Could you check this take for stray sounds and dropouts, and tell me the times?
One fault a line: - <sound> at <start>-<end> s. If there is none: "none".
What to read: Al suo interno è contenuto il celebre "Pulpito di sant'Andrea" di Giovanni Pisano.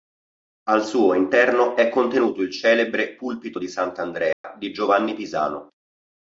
- dropout at 4.3-4.4 s